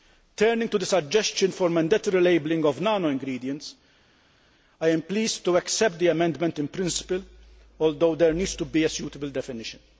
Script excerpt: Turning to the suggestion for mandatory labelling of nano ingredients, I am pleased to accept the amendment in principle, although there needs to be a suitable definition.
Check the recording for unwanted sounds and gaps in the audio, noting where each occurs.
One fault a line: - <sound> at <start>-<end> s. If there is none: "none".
none